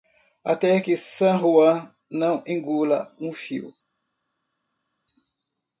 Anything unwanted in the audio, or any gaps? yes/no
no